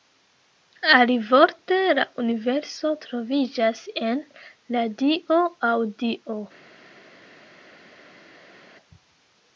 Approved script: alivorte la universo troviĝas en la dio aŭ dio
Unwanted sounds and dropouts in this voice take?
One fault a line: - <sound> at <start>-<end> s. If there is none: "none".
none